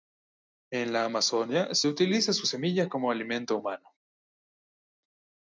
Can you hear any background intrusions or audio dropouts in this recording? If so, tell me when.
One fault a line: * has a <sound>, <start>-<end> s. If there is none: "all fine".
all fine